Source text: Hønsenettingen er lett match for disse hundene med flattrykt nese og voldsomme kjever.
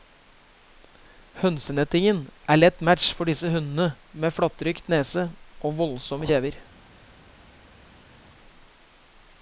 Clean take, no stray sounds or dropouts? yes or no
yes